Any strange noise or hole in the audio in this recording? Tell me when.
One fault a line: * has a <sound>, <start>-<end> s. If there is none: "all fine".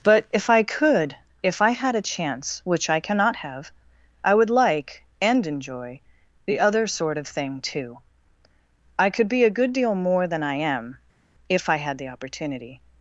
all fine